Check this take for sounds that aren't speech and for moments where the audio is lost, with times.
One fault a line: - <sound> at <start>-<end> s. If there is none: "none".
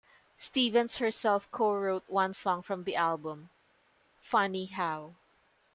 none